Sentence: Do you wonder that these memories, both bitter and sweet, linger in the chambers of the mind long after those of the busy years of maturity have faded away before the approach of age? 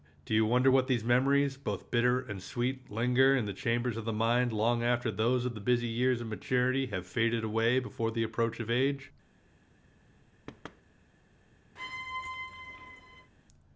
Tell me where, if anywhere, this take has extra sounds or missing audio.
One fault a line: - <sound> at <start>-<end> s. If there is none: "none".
- thud at 10.5-10.8 s
- squeak at 11.8-13.3 s